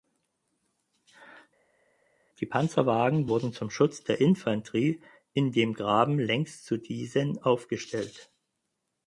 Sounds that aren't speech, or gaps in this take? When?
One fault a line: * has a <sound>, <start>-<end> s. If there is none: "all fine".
all fine